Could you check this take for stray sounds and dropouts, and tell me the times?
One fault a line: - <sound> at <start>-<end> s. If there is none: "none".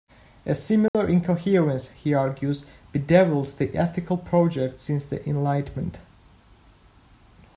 - dropout at 0.9-0.9 s